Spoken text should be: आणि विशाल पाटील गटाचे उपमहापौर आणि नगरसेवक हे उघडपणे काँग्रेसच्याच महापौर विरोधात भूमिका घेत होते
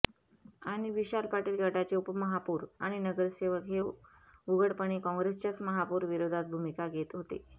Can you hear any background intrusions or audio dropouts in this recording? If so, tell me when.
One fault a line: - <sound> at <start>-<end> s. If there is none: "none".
none